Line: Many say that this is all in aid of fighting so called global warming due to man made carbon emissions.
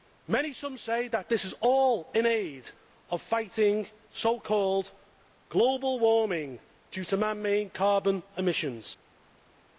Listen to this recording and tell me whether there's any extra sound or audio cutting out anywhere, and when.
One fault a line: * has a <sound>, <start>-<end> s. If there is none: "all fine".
all fine